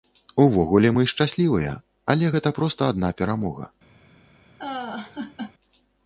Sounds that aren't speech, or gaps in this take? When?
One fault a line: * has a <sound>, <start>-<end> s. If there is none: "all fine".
* has a laugh, 4.6-5.5 s